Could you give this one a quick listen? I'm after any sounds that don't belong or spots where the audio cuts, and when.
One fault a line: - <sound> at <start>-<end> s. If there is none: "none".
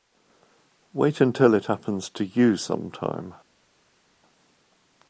none